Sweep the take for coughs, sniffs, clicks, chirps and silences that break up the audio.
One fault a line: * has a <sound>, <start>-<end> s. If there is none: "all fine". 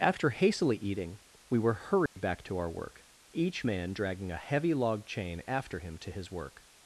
* has a dropout, 2.1-2.2 s